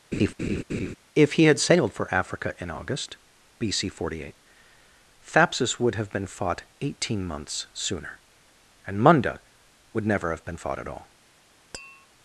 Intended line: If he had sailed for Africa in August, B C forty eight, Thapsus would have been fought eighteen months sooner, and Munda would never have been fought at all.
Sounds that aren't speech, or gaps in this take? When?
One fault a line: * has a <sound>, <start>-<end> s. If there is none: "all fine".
* has a laugh, 0.1-1.0 s
* has a tap, 11.7-12.1 s